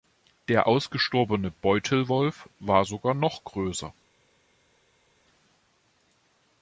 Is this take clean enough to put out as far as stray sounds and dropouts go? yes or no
yes